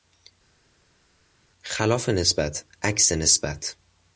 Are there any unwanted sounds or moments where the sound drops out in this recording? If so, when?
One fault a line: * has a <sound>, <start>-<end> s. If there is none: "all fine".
all fine